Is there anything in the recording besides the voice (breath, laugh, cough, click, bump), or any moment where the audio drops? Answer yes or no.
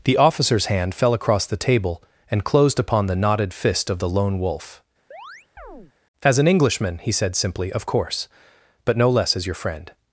yes